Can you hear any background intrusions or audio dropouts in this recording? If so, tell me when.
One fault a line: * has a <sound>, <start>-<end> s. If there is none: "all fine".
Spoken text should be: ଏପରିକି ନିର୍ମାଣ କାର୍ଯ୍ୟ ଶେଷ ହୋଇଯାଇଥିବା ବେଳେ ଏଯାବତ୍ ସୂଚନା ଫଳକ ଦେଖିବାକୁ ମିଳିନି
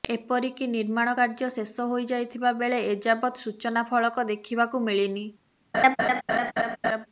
* has a laugh, 5.7-7.1 s